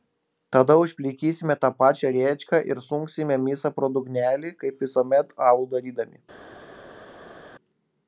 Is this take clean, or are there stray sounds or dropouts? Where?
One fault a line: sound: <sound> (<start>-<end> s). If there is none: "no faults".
no faults